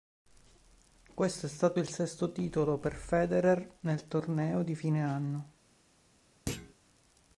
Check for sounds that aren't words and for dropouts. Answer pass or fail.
fail